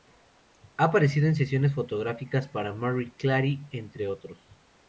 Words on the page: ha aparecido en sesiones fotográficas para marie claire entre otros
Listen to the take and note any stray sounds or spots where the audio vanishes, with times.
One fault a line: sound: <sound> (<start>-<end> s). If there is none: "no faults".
no faults